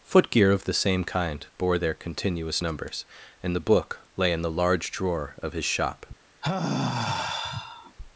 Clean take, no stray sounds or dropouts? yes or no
no